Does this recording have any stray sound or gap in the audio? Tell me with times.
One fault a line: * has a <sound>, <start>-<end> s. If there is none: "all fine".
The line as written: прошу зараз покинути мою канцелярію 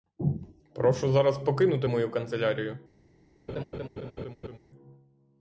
* has a laugh, 3.5-4.6 s